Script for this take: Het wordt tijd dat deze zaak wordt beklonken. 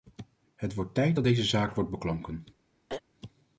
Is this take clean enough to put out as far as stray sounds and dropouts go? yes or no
no